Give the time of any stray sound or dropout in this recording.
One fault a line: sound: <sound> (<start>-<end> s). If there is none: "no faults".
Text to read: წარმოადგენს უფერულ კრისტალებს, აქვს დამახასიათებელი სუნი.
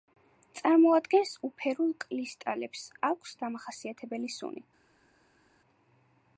no faults